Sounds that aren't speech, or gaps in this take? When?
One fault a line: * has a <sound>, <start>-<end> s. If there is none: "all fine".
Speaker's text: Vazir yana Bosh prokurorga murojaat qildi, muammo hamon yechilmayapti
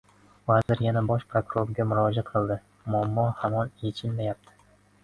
* has a dropout, 0.6-0.7 s